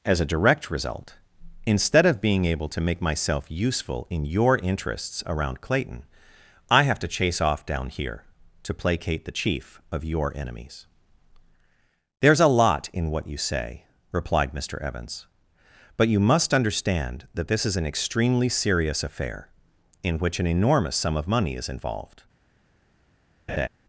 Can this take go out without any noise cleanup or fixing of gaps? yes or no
no